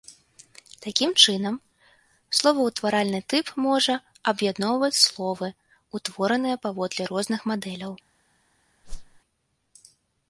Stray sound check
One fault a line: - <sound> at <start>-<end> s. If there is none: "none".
- whoosh at 8.8-9.2 s